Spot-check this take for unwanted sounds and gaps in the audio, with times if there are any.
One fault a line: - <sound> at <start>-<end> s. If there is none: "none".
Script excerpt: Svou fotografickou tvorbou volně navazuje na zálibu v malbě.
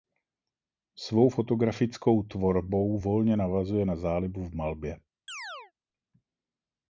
- chirp at 5.3-5.7 s